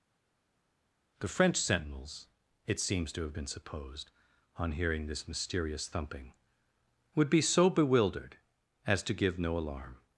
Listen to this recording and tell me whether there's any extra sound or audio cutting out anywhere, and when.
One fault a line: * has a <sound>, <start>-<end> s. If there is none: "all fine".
all fine